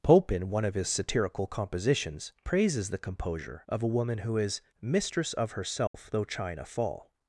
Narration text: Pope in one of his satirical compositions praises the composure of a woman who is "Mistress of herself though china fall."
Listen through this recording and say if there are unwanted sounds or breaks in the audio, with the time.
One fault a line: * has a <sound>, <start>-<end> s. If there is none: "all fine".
* has a dropout, 5.9-5.9 s